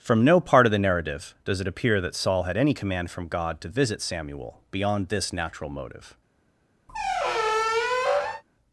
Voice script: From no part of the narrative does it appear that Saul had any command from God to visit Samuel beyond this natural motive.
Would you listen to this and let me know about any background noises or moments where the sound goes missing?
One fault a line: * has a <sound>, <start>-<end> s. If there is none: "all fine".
* has a squeak, 6.9-8.4 s